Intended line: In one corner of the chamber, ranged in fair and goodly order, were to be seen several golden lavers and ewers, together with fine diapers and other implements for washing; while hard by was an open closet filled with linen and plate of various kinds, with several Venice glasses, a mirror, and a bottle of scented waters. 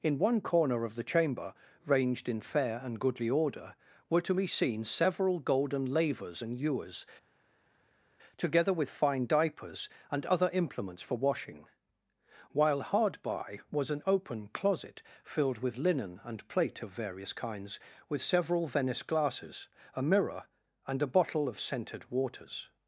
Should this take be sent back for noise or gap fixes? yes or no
no